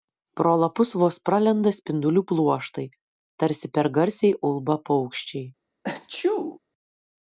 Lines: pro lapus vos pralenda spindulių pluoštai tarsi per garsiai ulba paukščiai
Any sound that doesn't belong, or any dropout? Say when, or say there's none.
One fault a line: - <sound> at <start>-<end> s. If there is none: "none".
- sneeze at 5.8-6.6 s